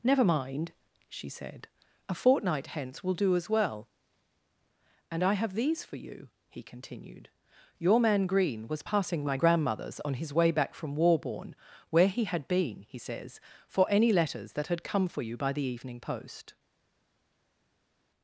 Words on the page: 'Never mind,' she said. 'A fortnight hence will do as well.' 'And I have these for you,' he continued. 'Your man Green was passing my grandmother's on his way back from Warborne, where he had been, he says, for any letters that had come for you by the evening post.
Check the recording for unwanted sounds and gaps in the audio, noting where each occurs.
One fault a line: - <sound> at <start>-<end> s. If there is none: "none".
none